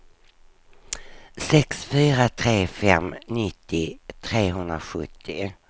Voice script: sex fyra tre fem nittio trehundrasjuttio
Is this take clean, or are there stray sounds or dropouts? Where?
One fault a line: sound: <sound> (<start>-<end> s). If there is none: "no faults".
no faults